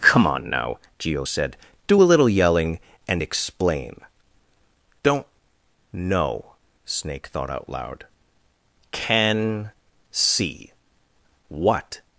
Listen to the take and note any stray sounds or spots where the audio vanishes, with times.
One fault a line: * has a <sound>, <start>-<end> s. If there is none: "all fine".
all fine